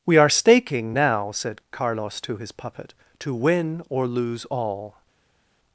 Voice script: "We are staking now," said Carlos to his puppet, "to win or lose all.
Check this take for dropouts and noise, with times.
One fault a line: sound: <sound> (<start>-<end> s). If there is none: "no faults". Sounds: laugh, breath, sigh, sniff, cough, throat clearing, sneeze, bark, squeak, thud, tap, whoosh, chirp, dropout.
no faults